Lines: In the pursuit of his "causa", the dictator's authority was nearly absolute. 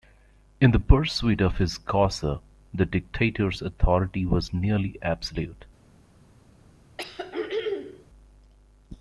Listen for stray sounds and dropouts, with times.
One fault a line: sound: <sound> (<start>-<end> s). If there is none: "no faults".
sound: throat clearing (7.0-8.1 s)